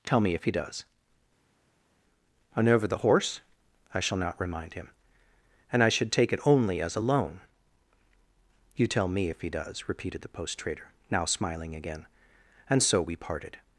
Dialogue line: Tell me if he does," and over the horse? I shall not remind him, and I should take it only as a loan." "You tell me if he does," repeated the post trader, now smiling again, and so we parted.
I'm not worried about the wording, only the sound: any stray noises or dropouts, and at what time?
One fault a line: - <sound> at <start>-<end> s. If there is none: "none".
none